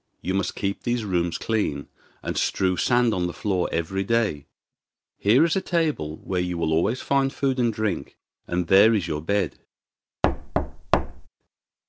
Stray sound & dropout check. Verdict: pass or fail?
fail